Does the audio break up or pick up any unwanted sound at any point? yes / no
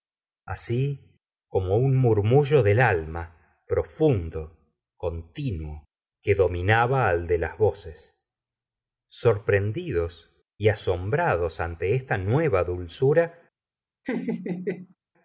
yes